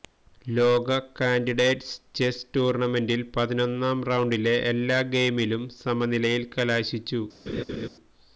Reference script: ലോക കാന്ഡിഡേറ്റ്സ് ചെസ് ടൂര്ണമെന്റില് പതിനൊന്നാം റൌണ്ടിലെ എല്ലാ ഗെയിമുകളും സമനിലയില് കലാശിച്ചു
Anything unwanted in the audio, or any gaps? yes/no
yes